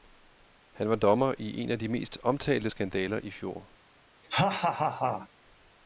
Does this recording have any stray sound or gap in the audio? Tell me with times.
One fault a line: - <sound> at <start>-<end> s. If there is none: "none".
- laugh at 4.2-5.3 s